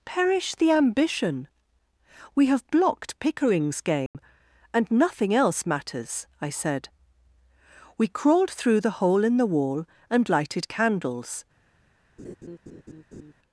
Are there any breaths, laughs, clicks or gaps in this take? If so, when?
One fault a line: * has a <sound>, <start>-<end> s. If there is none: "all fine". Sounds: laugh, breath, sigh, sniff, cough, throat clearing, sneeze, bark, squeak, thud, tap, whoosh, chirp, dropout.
* has a dropout, 4.1-4.1 s
* has a laugh, 12.2-13.3 s